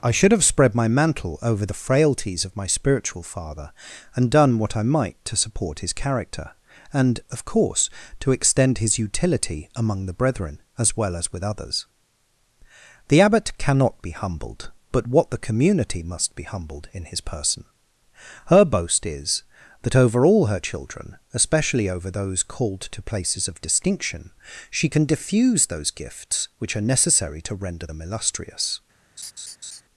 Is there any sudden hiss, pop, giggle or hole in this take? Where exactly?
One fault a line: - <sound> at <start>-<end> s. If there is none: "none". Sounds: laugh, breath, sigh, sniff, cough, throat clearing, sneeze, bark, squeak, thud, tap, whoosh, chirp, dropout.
- laugh at 29.2-29.8 s